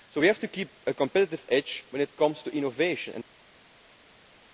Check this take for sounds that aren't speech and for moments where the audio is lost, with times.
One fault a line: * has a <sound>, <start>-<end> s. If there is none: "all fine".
all fine